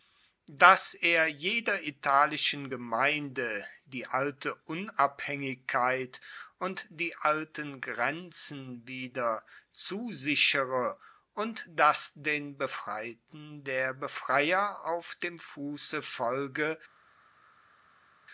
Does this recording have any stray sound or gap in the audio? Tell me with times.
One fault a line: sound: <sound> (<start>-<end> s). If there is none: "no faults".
no faults